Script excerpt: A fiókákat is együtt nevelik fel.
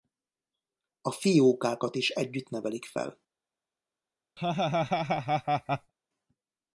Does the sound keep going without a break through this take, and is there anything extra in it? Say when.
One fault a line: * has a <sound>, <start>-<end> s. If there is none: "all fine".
* has a laugh, 4.4-5.9 s